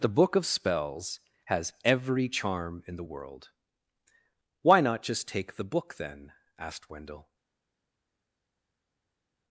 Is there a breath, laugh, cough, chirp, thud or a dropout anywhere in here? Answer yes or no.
no